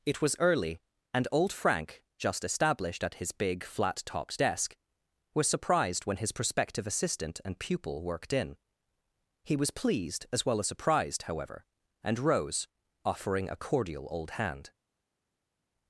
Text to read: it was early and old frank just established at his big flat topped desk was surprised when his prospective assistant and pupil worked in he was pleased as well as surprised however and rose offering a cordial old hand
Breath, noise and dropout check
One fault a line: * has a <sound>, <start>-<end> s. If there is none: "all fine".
all fine